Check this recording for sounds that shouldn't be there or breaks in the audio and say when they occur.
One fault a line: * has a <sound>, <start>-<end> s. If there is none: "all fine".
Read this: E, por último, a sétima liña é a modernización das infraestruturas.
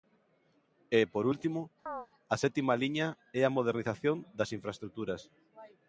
* has a chirp, 1.9-2.1 s